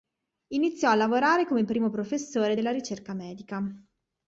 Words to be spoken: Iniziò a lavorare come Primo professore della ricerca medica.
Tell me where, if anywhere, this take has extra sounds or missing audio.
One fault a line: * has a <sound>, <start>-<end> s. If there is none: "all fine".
all fine